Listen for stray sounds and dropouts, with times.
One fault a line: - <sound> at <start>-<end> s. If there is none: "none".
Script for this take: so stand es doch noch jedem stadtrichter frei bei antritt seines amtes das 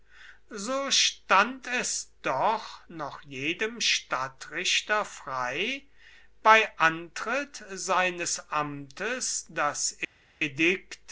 none